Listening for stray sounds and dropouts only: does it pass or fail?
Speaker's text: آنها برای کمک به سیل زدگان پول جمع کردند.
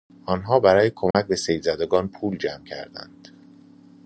fail